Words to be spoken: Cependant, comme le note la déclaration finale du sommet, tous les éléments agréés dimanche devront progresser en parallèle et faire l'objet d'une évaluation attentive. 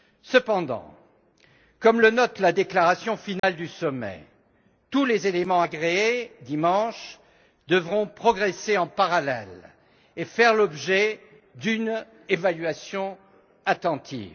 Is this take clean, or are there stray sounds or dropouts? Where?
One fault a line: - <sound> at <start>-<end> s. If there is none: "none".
- dropout at 3.4-3.4 s